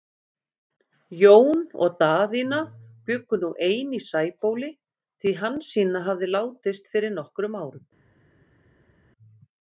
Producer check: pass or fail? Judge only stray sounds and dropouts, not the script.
pass